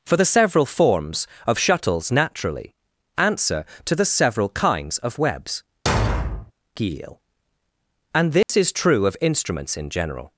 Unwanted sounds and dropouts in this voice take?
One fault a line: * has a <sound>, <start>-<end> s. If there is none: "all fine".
* has a thud, 5.9-6.5 s
* has a dropout, 8.4-8.5 s